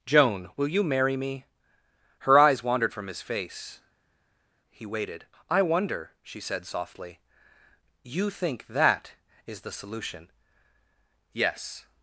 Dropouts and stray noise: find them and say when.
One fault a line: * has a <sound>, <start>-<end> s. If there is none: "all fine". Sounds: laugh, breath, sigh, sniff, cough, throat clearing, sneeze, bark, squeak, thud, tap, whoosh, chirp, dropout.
all fine